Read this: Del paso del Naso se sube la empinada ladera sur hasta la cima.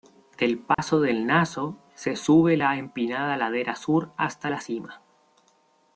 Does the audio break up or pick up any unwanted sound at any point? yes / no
yes